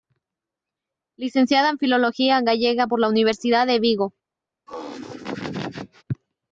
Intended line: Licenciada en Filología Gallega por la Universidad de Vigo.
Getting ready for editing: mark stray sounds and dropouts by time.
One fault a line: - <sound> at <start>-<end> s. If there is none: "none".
- laugh at 4.7-6.0 s